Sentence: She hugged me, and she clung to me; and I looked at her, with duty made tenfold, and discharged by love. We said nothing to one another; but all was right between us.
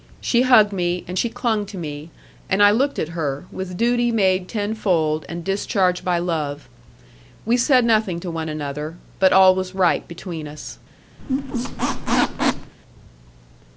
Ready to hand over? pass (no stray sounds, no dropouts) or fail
fail